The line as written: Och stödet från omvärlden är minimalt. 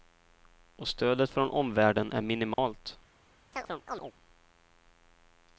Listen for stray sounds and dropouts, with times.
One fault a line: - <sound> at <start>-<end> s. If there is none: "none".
- dropout at 2.5-2.6 s
- chirp at 3.5-4.1 s